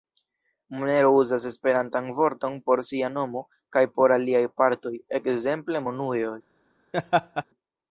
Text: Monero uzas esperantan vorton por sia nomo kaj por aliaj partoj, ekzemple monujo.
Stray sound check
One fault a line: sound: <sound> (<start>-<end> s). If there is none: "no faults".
sound: laugh (6.9-7.4 s)